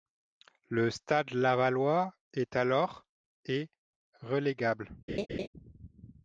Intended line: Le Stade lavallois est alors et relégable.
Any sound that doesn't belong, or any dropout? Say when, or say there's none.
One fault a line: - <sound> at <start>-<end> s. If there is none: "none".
- laugh at 5.1-5.5 s